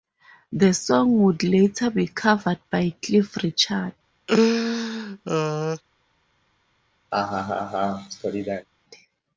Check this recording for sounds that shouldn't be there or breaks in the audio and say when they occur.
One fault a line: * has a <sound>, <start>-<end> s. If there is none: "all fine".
* has a laugh, 4.3-5.8 s
* has a laugh, 7.1-8.7 s